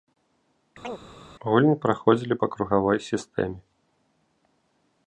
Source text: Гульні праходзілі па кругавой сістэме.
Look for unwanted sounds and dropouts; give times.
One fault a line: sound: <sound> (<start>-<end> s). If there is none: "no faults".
sound: chirp (0.8-1.0 s)